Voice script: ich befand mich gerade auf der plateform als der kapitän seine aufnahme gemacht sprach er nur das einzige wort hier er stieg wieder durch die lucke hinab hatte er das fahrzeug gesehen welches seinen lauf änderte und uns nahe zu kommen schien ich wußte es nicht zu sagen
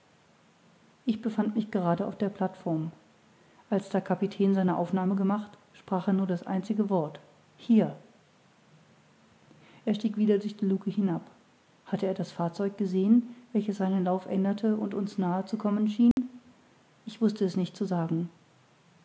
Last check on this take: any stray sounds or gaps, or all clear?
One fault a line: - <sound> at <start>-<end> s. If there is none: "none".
- dropout at 16.1-16.2 s